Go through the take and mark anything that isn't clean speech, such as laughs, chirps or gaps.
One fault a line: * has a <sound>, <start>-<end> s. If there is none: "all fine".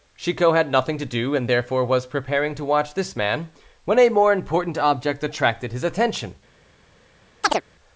* has a chirp, 7.4-7.6 s